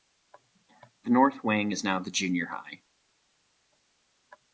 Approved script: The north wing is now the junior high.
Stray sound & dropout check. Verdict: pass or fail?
pass